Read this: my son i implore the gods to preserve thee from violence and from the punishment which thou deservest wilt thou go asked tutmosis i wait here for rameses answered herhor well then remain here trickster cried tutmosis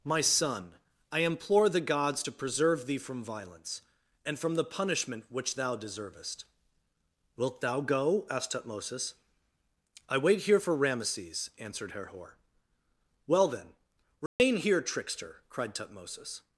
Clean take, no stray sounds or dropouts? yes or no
no